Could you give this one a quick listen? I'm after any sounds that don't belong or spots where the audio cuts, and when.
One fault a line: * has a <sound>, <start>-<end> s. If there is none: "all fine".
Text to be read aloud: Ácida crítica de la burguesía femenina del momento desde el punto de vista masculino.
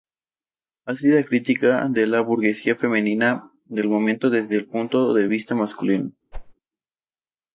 * has a whoosh, 6.3-6.5 s